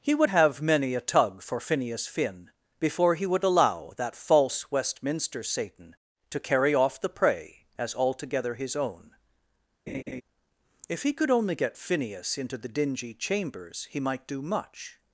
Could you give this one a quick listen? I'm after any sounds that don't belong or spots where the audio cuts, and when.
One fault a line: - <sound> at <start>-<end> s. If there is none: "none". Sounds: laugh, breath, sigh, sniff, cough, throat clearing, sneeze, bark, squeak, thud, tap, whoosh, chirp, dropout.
- laugh at 9.9-10.2 s